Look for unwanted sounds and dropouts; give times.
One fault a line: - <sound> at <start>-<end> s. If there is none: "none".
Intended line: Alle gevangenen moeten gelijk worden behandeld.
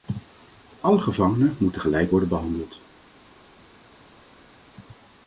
none